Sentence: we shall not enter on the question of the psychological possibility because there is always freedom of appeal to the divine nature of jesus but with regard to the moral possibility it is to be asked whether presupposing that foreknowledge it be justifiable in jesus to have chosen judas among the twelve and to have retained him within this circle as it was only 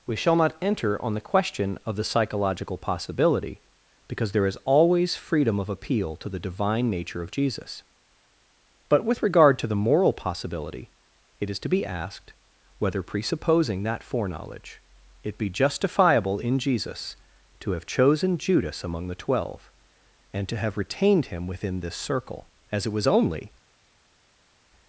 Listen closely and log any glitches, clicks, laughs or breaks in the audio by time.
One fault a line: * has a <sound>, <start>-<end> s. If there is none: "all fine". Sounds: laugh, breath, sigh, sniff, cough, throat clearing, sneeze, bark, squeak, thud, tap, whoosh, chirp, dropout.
all fine